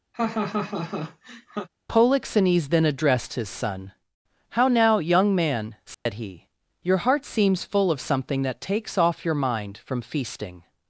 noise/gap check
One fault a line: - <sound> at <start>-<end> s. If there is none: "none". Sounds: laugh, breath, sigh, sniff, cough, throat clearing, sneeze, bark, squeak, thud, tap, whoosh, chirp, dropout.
- laugh at 0.1-1.7 s
- dropout at 5.9-6.1 s